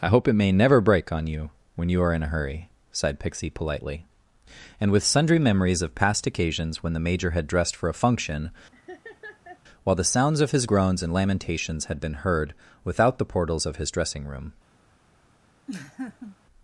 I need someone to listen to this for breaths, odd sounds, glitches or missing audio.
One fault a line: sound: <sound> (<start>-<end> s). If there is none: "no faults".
sound: laugh (8.7-9.6 s)
sound: laugh (15.7-16.4 s)